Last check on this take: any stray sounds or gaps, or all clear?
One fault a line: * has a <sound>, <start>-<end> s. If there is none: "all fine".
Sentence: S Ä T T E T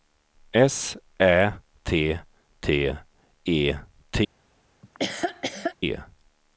* has a laugh, 4.8-5.8 s